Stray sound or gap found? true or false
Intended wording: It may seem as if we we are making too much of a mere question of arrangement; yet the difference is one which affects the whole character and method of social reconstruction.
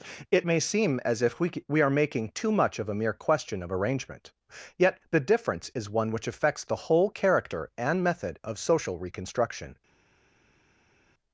false